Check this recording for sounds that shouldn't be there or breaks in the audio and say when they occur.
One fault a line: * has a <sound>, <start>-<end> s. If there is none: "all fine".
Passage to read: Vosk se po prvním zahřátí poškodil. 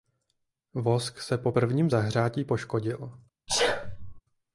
* has a sneeze, 3.5-4.2 s